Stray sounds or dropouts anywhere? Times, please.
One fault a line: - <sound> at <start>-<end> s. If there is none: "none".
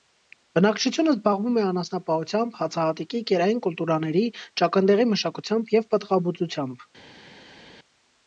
none